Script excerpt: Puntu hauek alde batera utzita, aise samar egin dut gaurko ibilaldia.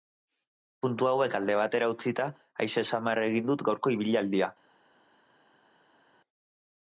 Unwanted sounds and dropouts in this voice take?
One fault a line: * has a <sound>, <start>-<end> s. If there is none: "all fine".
all fine